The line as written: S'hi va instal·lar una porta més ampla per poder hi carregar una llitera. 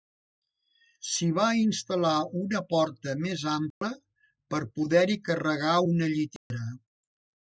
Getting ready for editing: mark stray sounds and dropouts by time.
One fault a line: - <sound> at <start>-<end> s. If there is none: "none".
- dropout at 3.7-3.8 s
- dropout at 6.4-6.5 s